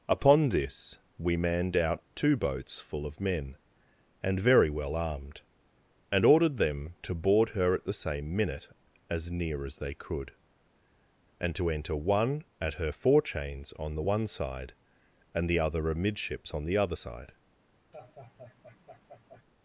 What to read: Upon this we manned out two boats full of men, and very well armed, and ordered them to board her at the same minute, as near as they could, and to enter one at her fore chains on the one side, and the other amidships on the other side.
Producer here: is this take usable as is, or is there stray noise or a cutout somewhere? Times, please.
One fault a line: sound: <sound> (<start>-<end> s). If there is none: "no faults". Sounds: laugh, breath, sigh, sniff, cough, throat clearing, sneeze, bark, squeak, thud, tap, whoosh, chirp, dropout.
sound: laugh (17.9-19.4 s)